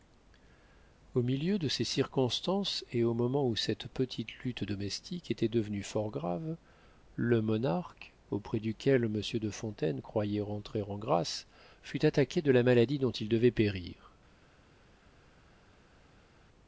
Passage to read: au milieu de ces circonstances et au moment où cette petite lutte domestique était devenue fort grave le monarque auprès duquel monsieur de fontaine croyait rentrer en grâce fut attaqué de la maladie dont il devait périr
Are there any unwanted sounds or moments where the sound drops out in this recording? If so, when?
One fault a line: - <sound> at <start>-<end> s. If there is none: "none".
none